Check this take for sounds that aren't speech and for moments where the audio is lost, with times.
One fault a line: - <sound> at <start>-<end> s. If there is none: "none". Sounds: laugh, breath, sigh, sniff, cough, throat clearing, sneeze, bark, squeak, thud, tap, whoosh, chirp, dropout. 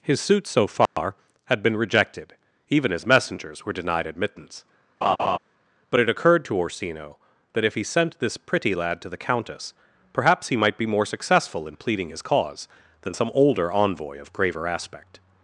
- dropout at 0.9-1.0 s
- laugh at 5.0-5.4 s